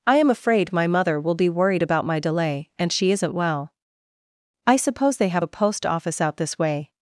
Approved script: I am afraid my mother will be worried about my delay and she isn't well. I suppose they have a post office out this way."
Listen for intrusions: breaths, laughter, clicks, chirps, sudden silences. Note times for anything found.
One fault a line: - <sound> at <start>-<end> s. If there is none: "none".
none